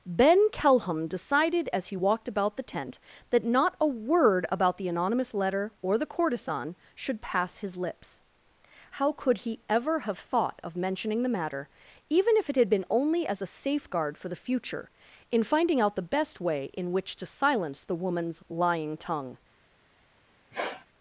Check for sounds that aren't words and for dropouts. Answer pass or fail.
fail